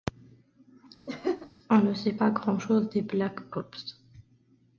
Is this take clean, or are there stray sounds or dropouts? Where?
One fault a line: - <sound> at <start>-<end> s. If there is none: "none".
- laugh at 1.1-1.5 s